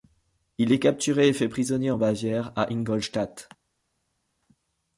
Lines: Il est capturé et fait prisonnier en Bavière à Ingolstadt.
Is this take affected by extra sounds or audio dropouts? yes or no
no